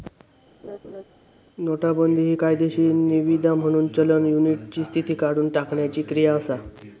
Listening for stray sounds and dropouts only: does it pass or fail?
fail